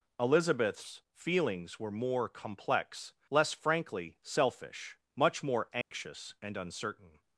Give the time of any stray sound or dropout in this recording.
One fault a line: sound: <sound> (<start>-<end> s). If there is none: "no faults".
sound: dropout (5.8-5.9 s)